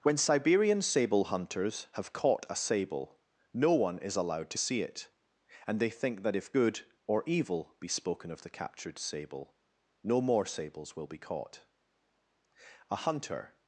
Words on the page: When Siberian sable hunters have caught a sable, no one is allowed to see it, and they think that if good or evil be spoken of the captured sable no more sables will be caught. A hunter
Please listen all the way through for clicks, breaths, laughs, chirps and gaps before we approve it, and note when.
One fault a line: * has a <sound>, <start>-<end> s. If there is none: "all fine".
all fine